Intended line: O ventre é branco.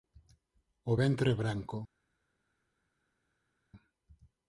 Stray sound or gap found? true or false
false